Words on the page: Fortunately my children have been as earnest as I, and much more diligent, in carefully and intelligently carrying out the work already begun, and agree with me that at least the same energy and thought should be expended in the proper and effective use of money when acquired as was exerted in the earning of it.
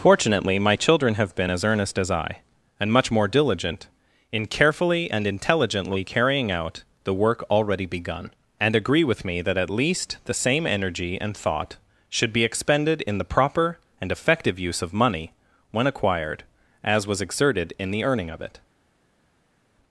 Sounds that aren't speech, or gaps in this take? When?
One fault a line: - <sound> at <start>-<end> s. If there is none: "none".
none